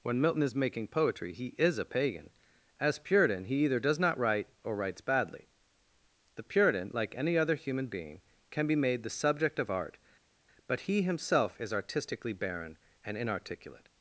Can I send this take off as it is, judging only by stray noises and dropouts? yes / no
yes